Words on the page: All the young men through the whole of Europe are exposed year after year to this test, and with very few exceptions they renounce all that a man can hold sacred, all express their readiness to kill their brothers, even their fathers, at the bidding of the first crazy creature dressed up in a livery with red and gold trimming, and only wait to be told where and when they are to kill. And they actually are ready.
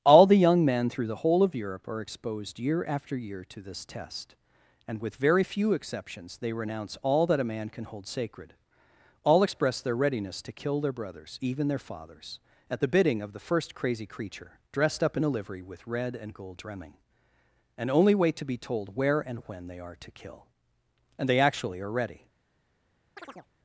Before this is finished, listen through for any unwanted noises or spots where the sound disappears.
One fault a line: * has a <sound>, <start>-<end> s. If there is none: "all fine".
* has a chirp, 23.2-23.5 s